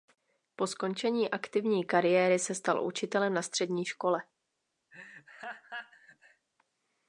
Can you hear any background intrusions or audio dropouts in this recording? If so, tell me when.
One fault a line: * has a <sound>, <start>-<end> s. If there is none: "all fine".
* has a laugh, 4.9-6.5 s